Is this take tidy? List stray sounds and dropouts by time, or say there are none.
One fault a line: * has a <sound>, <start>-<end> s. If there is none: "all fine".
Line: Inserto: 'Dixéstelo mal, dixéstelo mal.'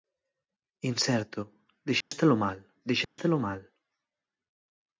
* has a dropout, 2.0-2.1 s
* has a dropout, 3.0-3.2 s